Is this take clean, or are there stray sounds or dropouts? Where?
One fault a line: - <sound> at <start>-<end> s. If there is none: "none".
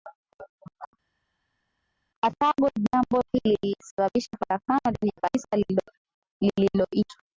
none